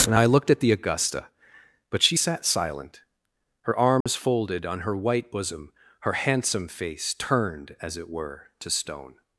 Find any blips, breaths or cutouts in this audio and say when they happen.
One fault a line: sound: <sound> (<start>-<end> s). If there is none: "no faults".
sound: dropout (4.0-4.1 s)